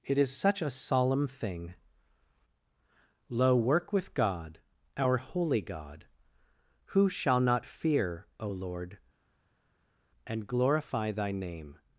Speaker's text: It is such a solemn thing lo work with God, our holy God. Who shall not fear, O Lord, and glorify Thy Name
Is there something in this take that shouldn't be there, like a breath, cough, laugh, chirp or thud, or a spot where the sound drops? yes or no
no